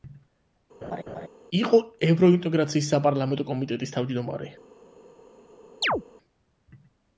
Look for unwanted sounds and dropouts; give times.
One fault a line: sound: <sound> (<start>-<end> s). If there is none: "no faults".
sound: laugh (0.8-1.3 s)
sound: chirp (5.8-6.0 s)